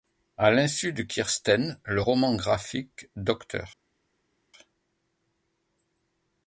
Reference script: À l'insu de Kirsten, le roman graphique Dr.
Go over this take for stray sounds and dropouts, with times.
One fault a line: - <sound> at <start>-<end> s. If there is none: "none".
none